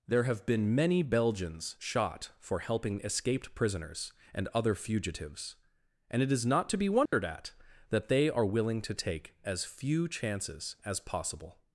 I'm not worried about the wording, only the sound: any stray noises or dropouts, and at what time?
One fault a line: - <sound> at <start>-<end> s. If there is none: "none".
- dropout at 7.1-7.1 s